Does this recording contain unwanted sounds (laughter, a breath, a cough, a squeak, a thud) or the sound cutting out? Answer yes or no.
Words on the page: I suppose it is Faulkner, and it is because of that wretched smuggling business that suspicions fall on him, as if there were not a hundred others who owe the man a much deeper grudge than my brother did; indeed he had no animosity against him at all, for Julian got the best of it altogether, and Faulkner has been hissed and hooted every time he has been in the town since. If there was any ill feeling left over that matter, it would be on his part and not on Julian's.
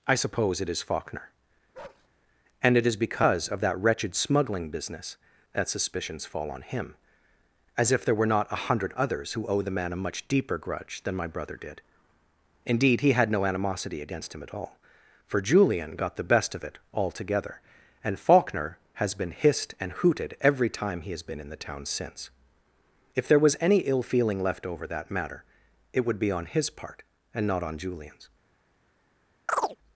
yes